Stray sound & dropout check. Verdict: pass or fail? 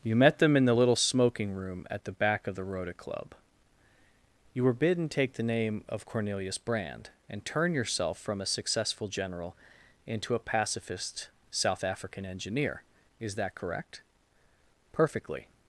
pass